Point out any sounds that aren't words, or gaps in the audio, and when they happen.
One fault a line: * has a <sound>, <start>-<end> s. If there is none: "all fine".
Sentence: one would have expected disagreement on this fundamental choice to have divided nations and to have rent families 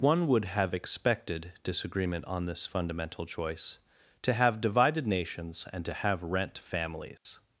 * has a dropout, 7.2-7.3 s